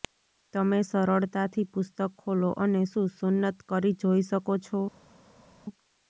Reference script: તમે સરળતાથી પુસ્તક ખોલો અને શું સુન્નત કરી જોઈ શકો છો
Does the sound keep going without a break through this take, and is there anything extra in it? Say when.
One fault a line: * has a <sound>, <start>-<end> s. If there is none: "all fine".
all fine